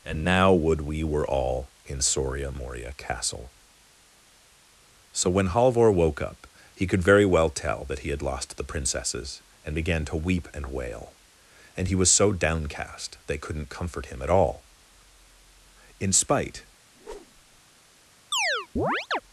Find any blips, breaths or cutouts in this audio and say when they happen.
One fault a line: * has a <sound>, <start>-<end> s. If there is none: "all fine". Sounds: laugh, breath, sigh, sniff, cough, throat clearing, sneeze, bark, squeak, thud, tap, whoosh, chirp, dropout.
* has a whoosh, 16.9-17.6 s
* has a chirp, 18.3-19.2 s